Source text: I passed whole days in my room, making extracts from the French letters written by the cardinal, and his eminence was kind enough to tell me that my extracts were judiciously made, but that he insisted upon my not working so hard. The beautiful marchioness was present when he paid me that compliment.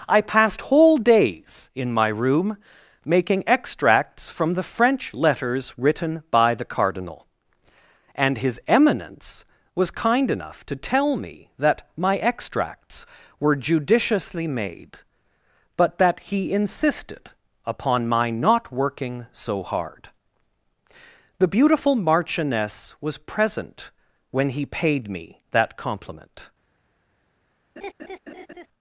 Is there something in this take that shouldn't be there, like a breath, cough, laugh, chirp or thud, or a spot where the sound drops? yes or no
yes